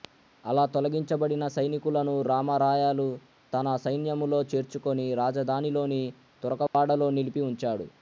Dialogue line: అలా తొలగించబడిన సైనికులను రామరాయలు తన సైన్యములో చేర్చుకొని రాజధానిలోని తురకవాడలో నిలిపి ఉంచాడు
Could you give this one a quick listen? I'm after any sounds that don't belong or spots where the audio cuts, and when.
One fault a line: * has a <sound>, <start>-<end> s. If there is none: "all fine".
* has a dropout, 6.7-6.7 s